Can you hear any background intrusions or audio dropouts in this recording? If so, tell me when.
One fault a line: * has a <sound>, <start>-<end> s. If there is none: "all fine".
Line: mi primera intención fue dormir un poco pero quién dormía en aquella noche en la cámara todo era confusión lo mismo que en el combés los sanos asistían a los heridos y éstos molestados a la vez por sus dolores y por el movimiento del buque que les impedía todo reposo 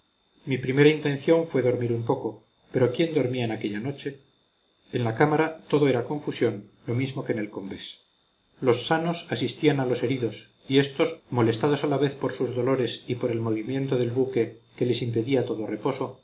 all fine